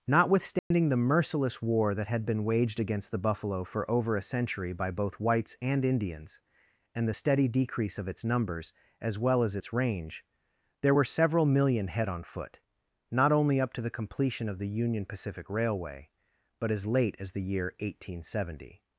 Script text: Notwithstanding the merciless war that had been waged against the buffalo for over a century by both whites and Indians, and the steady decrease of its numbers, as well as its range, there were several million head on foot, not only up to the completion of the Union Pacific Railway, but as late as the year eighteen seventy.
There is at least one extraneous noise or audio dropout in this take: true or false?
true